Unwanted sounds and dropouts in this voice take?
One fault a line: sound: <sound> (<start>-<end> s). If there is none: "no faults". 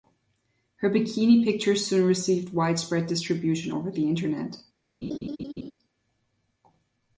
sound: laugh (5.0-5.7 s)